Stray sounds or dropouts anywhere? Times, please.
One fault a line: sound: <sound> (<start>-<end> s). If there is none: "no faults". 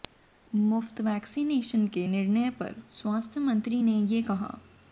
no faults